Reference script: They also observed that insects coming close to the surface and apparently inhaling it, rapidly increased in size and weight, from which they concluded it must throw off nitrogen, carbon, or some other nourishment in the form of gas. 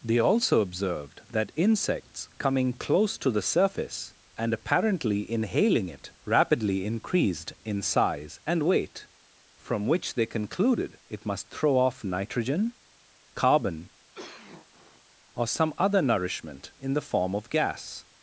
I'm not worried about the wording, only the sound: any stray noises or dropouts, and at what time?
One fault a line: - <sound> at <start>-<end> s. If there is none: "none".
- cough at 14.1-15.0 s